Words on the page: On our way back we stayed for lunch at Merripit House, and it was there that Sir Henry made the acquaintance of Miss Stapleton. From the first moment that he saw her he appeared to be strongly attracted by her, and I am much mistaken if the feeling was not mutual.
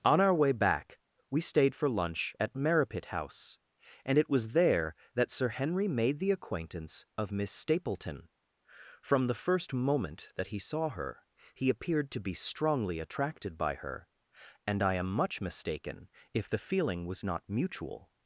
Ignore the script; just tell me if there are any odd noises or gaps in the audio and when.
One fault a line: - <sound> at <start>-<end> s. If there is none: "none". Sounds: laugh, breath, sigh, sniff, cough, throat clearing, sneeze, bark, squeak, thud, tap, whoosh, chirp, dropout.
none